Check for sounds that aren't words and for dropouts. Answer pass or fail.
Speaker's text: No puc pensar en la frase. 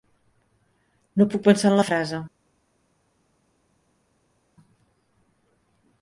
pass